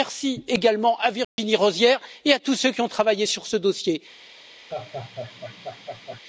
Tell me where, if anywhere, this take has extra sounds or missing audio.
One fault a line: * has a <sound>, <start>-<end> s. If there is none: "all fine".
* has a dropout, 1.2-1.4 s
* has a laugh, 4.7-6.2 s